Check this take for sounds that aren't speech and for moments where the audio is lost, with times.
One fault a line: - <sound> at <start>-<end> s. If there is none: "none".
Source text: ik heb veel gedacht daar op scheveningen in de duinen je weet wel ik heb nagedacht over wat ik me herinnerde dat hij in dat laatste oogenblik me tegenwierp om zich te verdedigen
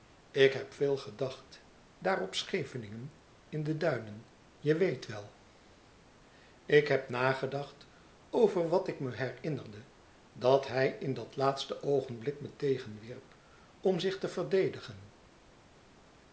none